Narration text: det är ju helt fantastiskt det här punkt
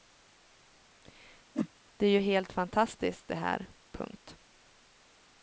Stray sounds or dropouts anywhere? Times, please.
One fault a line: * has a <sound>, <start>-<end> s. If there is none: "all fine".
* has a whoosh, 1.5-1.7 s